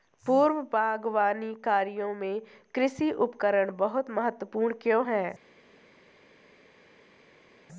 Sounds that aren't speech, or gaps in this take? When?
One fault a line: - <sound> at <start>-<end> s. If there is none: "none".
none